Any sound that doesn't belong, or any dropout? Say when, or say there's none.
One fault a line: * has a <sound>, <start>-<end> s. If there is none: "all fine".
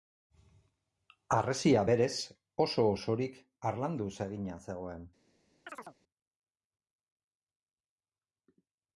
* has a chirp, 5.7-6.0 s